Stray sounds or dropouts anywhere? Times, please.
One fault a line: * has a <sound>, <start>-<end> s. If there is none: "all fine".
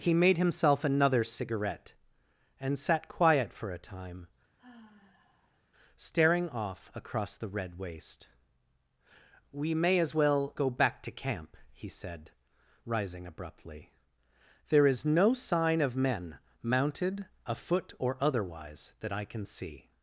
* has a sigh, 4.6-5.6 s